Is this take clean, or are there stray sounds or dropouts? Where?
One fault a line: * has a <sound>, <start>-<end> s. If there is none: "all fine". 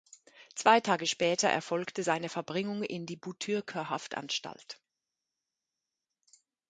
all fine